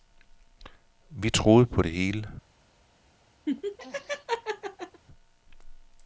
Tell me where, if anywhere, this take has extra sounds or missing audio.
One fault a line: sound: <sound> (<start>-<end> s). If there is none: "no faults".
sound: laugh (3.5-5.0 s)